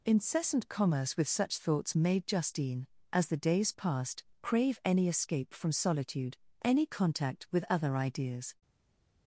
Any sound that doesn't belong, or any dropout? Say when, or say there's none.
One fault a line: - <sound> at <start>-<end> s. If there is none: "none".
none